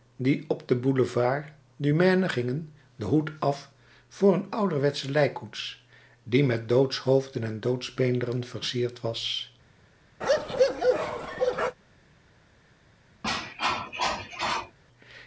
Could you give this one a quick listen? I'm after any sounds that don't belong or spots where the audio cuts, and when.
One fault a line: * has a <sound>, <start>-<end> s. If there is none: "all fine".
* has a bark, 10.2-11.8 s
* has a cough, 13.2-14.8 s